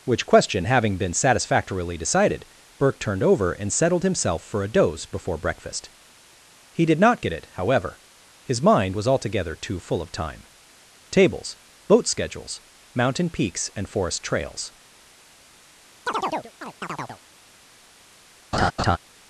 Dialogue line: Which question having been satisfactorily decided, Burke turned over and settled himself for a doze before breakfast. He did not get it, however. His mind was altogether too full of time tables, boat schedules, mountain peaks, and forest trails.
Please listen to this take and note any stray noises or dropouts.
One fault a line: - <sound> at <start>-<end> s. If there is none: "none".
- chirp at 16.1-17.2 s
- laugh at 18.5-19.0 s